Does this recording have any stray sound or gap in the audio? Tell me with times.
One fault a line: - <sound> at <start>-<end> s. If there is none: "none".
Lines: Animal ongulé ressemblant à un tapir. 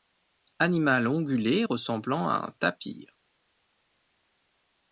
none